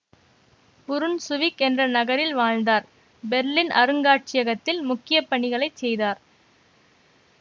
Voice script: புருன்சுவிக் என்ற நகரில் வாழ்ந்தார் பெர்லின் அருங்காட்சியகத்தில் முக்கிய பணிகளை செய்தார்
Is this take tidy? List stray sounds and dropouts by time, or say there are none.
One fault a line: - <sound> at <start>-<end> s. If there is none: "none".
none